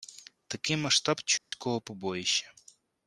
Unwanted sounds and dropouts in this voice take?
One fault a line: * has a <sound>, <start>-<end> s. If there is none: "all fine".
* has a dropout, 1.4-1.5 s